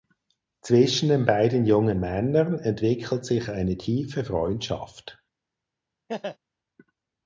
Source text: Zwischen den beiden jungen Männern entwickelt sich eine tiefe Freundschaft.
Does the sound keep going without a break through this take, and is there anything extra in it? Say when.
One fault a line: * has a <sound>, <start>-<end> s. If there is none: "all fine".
* has a laugh, 6.1-6.4 s